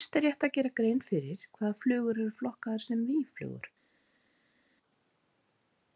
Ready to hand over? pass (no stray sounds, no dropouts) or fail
pass